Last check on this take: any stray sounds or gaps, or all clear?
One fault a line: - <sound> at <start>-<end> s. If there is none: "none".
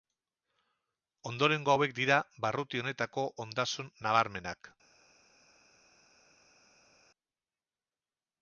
none